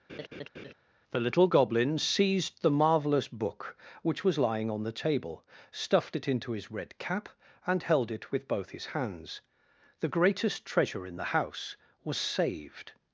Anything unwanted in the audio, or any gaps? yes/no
yes